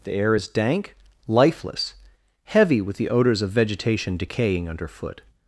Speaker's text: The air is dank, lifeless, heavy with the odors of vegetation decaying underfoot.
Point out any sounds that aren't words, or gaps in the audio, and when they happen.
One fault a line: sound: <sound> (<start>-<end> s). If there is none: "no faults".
no faults